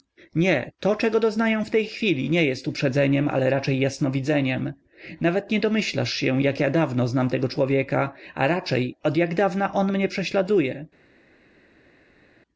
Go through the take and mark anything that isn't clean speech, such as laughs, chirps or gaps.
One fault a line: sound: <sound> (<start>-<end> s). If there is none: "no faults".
no faults